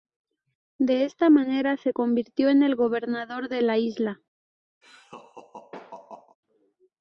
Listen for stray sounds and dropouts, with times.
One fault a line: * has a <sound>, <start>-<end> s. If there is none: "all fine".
* has a laugh, 4.8-6.4 s